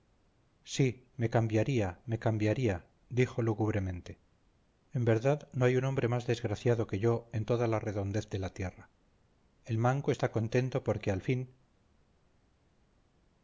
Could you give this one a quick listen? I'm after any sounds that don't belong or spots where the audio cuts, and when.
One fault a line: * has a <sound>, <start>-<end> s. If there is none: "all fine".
all fine